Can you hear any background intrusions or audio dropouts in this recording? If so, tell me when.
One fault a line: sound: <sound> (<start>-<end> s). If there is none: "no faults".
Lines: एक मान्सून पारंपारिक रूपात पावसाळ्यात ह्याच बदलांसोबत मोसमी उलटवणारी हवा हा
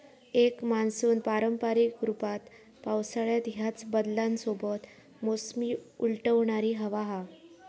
no faults